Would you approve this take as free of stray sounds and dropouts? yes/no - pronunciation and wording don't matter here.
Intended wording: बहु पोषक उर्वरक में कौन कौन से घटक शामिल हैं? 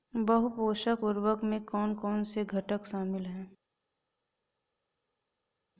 yes